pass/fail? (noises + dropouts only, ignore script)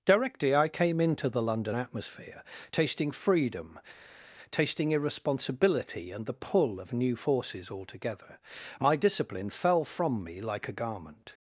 pass